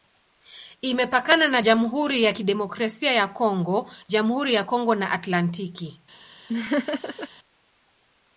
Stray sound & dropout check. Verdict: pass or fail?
fail